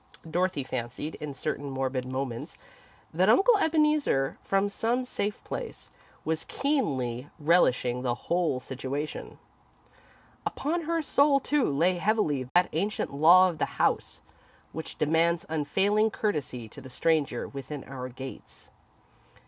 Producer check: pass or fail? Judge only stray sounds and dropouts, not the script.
fail